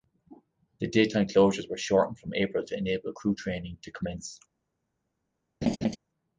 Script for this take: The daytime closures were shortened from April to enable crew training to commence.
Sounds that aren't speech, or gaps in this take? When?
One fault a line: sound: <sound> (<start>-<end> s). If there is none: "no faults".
sound: laugh (5.6-6.0 s)